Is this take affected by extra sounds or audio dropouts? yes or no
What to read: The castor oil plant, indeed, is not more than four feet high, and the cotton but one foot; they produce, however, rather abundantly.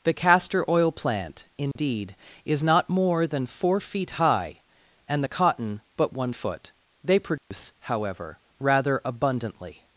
yes